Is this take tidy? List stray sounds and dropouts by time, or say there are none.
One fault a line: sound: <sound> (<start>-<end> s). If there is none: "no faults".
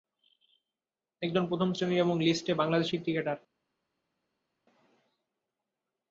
no faults